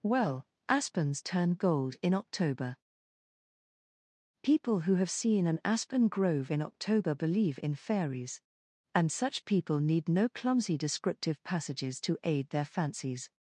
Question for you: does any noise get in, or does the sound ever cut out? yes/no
no